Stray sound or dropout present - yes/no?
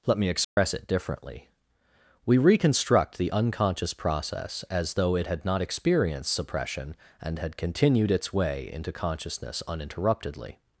yes